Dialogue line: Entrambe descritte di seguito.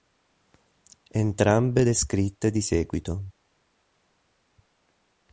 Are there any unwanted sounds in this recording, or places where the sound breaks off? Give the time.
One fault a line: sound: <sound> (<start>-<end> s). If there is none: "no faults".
no faults